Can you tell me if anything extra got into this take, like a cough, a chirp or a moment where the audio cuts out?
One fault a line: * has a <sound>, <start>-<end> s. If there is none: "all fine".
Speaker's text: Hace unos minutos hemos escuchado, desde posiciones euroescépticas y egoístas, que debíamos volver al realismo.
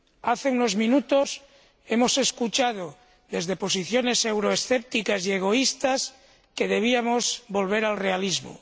all fine